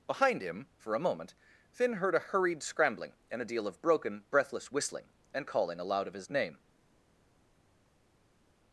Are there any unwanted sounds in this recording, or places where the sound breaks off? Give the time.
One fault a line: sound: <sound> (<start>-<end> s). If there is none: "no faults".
no faults